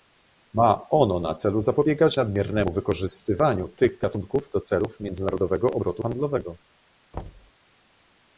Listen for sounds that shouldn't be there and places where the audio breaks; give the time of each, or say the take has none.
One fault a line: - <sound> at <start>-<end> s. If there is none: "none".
- thud at 7.1-7.5 s